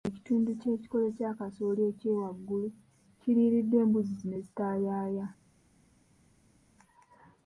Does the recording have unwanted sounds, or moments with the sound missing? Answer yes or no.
no